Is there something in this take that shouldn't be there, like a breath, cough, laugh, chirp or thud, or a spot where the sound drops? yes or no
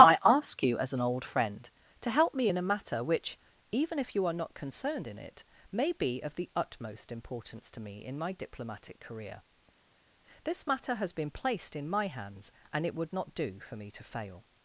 no